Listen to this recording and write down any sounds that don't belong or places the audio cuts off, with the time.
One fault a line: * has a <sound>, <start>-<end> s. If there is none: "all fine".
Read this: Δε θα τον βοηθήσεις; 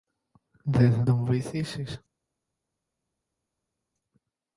all fine